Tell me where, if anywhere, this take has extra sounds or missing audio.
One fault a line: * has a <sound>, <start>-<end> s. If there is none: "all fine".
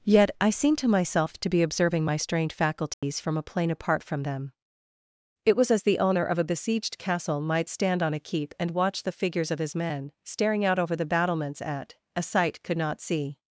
* has a dropout, 2.9-3.0 s